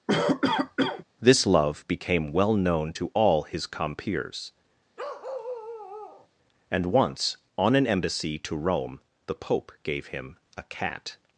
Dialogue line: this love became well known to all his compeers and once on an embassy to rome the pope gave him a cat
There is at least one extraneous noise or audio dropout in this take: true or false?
true